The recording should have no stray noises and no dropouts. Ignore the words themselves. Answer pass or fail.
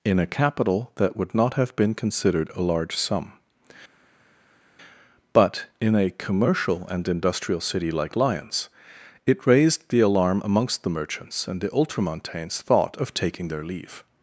pass